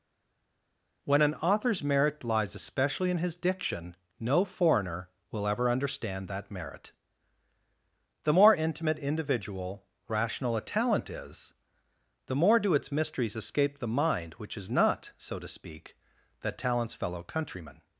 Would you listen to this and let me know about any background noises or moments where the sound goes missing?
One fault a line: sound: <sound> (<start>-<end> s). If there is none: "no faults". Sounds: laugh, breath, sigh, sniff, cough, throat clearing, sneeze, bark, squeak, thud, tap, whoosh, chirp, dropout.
no faults